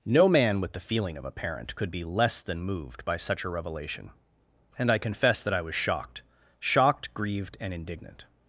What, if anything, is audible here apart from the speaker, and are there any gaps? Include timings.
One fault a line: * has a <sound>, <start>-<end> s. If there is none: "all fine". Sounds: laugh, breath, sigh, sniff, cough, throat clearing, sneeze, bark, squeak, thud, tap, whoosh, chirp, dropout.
all fine